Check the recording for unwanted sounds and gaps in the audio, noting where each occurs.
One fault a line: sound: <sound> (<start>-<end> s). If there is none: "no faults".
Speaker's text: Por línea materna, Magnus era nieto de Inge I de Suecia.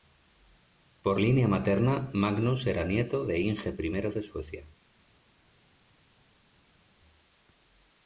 no faults